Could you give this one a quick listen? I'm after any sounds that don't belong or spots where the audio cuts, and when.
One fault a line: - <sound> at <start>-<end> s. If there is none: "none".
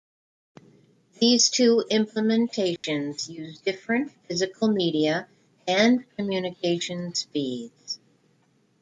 - dropout at 2.8-2.8 s